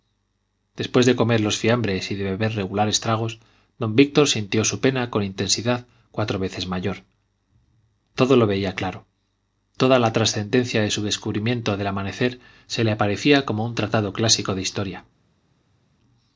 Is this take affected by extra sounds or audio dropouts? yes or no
no